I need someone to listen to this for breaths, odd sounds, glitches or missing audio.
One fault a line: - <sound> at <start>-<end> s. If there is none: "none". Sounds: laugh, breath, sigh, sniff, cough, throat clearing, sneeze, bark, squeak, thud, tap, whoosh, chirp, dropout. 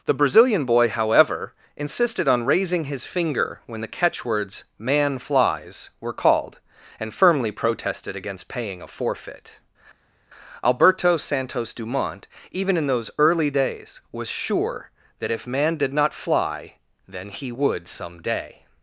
none